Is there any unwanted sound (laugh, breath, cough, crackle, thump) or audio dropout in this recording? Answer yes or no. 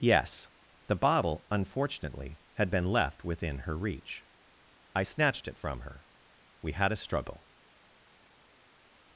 no